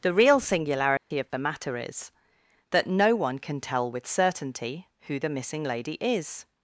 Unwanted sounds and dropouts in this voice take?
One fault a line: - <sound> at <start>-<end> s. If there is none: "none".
- dropout at 1.0-1.1 s